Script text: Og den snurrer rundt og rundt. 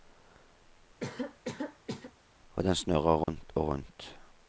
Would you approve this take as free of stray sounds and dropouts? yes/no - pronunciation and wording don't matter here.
no